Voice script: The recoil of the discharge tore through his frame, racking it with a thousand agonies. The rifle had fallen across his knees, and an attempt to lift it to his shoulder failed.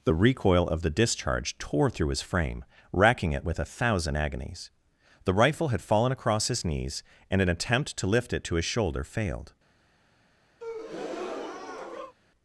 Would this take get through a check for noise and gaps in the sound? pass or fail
fail